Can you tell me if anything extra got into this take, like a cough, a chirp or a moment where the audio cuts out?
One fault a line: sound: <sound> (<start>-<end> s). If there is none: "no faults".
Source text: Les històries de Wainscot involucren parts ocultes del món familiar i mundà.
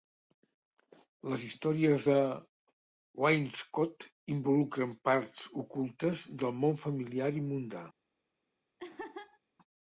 sound: laugh (8.8-9.4 s)